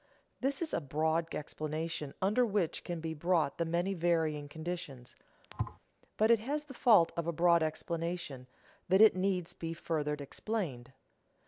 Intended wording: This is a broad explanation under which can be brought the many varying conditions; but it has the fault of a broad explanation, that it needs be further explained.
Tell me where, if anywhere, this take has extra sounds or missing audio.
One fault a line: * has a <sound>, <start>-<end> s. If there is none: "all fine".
* has a thud, 5.5-5.8 s